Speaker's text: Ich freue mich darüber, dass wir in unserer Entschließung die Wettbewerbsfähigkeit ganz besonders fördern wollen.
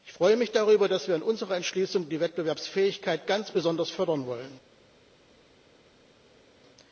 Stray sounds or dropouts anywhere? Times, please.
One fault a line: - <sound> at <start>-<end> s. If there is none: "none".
none